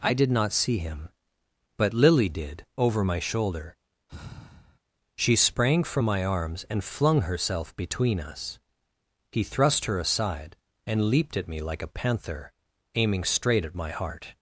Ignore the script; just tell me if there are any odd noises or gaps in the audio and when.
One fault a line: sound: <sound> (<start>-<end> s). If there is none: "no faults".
sound: sigh (4.1-4.8 s)